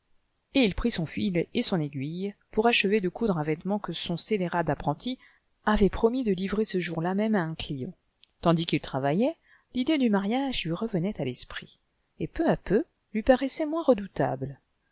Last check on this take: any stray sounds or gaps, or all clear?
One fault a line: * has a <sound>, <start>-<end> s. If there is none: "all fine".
all fine